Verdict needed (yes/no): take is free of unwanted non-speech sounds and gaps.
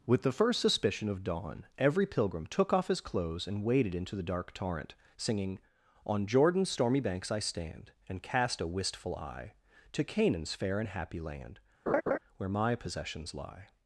no